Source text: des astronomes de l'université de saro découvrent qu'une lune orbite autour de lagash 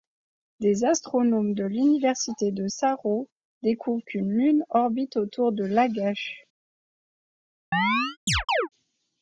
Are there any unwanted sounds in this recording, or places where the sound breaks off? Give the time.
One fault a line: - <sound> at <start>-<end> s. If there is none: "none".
- chirp at 7.7-8.7 s